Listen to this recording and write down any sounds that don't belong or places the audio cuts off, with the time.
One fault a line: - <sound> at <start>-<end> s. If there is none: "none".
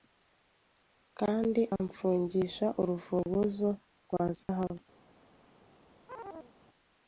- dropout at 4.4-4.5 s
- chirp at 6.1-6.5 s